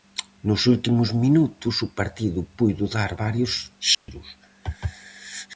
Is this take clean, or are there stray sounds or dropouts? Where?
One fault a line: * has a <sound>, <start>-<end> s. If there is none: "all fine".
* has a dropout, 3.9-4.1 s